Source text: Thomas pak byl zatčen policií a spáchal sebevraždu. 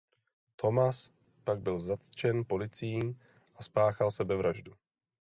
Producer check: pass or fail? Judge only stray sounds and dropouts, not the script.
pass